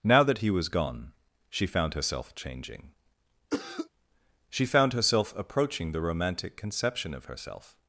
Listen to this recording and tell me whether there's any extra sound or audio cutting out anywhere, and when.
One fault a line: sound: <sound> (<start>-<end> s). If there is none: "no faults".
sound: cough (3.5-3.9 s)